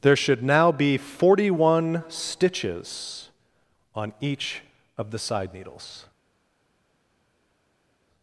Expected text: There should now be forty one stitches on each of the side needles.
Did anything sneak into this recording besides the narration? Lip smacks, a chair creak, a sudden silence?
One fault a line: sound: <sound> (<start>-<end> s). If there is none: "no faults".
no faults